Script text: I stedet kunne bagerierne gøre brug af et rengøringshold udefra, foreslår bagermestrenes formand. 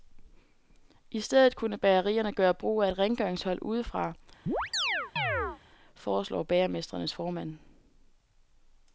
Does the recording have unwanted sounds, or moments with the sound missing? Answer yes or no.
yes